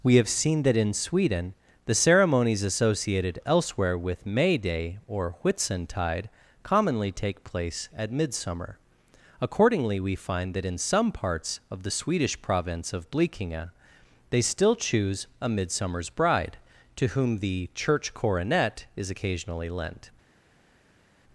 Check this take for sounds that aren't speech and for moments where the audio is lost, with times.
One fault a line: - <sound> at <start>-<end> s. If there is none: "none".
none